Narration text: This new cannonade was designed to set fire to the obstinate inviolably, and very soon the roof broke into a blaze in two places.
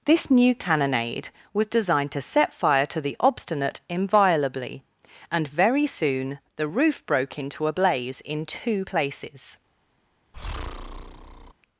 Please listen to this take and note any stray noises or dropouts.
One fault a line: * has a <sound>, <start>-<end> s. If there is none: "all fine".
* has a breath, 10.3-11.5 s